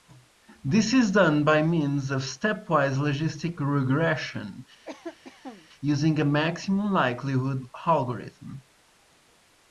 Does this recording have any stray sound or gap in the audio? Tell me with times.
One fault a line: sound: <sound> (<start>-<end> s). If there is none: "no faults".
sound: cough (4.8-5.7 s)